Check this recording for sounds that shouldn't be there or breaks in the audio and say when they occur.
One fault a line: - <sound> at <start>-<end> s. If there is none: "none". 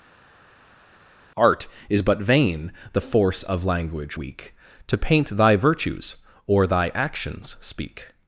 none